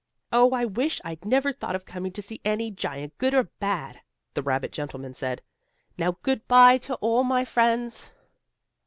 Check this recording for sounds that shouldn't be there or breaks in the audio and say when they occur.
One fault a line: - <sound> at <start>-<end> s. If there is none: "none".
none